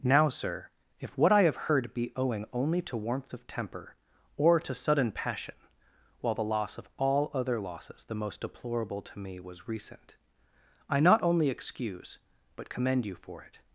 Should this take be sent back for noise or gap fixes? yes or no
no